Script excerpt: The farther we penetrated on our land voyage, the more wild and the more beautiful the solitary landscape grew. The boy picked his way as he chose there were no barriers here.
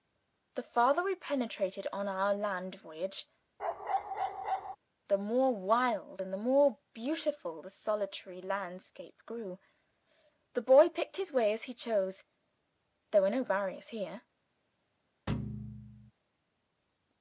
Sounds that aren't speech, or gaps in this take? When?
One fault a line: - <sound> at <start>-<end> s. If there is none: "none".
- bark at 3.6-4.8 s
- thud at 15.3-16.1 s